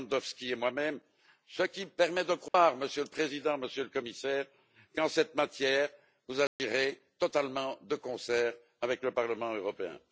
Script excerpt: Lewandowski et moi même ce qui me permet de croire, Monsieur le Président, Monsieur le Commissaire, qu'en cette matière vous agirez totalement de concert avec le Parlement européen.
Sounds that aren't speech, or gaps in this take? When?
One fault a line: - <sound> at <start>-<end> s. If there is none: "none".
- dropout at 2.5-2.5 s
- dropout at 6.5-6.6 s